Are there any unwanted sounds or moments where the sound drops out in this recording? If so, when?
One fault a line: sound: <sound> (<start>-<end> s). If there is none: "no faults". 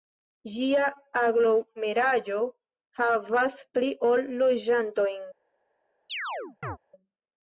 sound: chirp (6.1-6.8 s)